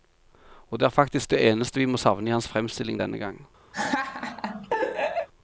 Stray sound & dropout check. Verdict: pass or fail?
fail